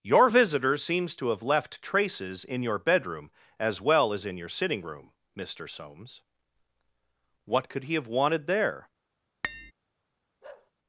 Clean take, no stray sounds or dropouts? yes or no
no